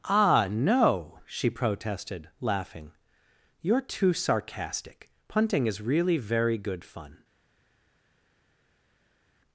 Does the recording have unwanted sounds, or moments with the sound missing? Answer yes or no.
no